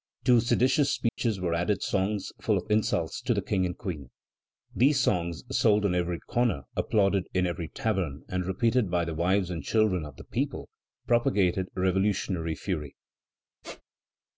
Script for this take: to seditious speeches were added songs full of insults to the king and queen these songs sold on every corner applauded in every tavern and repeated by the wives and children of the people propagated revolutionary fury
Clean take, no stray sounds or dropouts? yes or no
no